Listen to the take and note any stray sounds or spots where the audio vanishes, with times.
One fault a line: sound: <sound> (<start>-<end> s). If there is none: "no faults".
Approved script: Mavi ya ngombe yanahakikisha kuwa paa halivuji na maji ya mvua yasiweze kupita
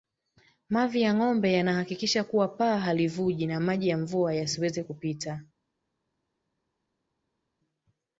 no faults